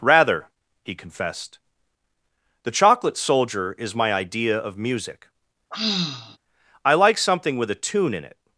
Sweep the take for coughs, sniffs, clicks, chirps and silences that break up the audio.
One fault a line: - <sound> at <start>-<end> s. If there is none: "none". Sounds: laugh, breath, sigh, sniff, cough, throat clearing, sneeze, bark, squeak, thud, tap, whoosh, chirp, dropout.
- sigh at 5.7-6.4 s